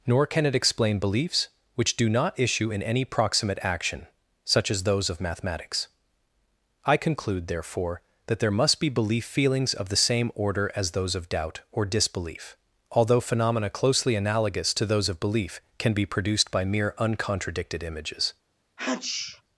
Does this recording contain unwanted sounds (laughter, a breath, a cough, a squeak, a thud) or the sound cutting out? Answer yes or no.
yes